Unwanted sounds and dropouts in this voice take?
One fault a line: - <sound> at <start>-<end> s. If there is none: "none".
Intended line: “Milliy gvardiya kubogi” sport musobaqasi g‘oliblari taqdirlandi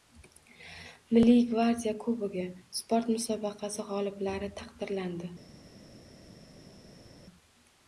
none